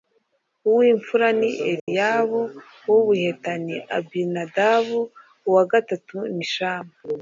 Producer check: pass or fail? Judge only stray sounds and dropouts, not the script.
fail